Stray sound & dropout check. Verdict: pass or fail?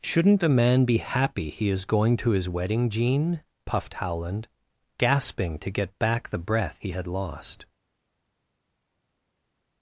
pass